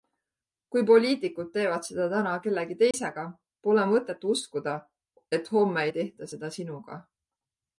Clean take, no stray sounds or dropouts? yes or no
no